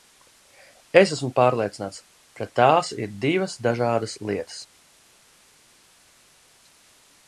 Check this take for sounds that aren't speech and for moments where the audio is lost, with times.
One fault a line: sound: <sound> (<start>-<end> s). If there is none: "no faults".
no faults